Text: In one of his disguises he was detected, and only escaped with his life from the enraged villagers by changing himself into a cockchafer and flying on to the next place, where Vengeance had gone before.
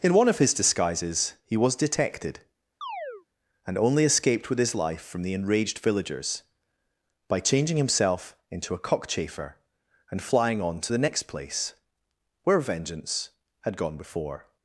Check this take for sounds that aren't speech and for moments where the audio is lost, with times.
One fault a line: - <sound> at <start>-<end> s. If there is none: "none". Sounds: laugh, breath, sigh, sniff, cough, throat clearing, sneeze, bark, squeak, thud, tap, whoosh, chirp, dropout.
- chirp at 2.8-3.3 s